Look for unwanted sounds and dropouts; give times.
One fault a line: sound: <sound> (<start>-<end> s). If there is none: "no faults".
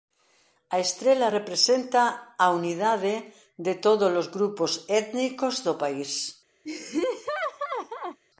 sound: laugh (6.6-8.2 s)